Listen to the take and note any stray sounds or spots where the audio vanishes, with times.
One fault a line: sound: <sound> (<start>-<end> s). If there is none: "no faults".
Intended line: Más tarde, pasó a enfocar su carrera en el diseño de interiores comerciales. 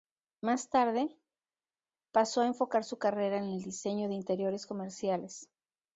no faults